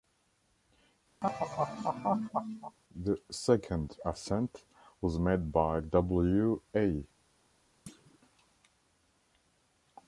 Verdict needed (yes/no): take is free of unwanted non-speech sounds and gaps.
no